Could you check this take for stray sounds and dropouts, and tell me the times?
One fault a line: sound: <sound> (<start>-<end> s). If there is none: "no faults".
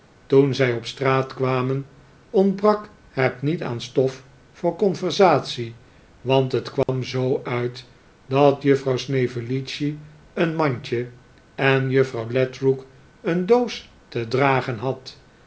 sound: dropout (6.8-6.9 s)